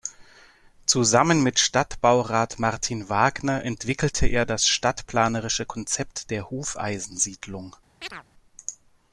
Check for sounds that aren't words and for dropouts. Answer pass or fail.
fail